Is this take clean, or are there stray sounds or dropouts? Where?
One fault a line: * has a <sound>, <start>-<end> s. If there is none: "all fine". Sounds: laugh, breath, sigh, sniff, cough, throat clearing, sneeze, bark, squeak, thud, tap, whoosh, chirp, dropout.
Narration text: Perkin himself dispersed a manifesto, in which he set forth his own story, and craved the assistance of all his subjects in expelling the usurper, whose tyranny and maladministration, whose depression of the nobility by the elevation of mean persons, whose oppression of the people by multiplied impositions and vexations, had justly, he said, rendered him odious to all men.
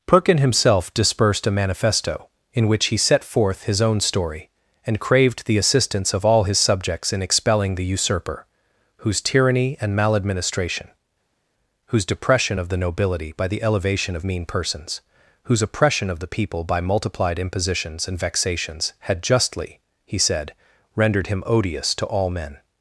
all fine